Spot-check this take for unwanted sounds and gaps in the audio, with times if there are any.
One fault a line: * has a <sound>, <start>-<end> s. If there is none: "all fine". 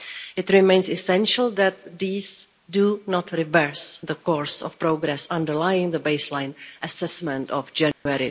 * has a dropout, 7.9-8.1 s